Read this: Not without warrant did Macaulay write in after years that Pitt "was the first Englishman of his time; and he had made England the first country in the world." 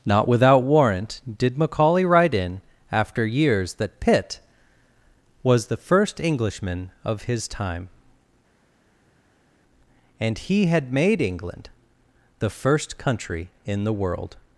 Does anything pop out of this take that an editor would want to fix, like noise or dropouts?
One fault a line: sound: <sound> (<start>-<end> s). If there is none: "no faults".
no faults